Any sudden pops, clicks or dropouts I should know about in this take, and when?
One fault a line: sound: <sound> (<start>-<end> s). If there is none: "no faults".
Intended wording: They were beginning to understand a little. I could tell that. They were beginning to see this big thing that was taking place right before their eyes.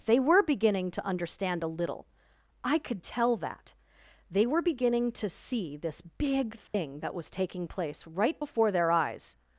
sound: dropout (6.7-6.7 s)